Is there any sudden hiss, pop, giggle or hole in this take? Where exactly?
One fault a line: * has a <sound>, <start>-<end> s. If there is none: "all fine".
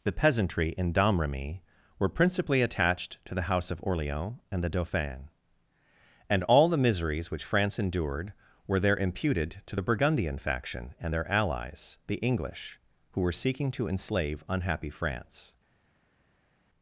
all fine